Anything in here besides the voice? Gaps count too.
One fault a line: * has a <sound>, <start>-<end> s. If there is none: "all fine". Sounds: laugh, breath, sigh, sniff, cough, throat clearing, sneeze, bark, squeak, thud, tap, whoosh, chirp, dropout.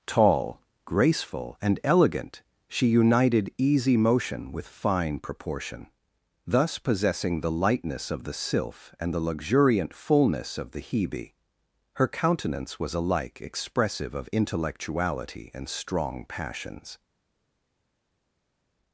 all fine